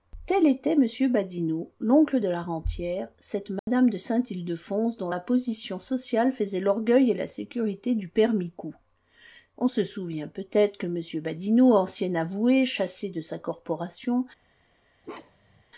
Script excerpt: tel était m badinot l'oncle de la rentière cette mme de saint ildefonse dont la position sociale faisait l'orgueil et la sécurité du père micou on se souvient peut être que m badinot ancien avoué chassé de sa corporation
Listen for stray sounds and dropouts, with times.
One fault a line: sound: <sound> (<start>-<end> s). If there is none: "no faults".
sound: dropout (3.6-3.7 s)
sound: bark (15.0-15.6 s)